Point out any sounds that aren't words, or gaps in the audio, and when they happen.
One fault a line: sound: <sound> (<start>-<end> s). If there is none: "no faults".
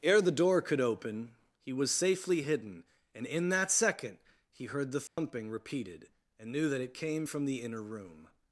sound: dropout (5.1-5.2 s)